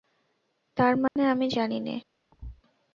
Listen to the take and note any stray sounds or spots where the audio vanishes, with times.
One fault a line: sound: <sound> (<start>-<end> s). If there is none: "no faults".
sound: dropout (1.1-1.2 s)
sound: thud (2.3-2.6 s)